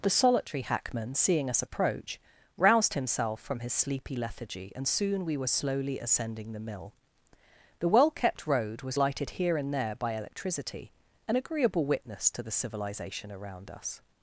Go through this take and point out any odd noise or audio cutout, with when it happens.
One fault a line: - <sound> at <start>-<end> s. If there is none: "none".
none